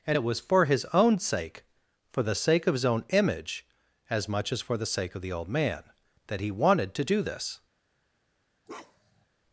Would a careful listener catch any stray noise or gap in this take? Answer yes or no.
yes